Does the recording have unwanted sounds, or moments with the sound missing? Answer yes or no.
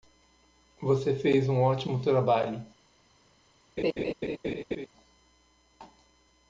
yes